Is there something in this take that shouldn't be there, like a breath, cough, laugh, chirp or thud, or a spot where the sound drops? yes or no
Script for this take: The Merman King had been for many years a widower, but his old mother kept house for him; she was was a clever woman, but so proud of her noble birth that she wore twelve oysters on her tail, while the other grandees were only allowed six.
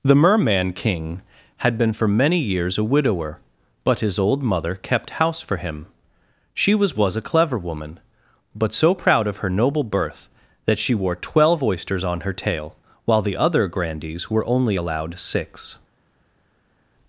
no